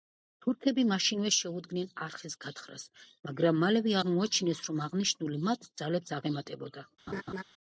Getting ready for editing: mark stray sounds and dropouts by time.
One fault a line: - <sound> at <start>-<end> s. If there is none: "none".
- laugh at 7.1-7.4 s